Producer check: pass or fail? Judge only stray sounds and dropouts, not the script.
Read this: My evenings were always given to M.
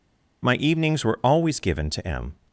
pass